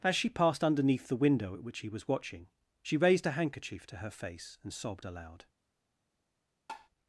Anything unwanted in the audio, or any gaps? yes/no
yes